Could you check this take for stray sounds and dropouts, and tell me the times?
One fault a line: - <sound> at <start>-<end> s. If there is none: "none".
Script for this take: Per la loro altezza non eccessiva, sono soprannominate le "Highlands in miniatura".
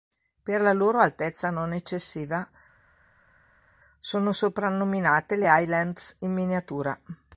none